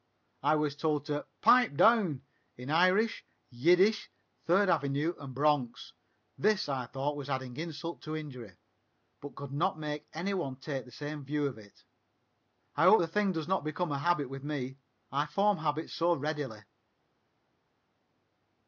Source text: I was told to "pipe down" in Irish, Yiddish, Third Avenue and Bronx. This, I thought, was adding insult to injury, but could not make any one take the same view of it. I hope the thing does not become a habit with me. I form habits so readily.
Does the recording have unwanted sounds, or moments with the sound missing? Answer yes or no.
no